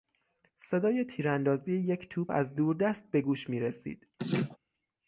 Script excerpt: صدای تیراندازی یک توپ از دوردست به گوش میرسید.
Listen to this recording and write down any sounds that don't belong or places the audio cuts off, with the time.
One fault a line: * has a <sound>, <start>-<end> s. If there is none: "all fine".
* has a laugh, 4.2-4.6 s